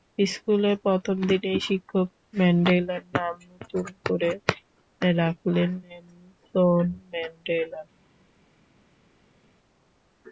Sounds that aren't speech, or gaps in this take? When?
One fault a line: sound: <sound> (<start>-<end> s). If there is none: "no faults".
no faults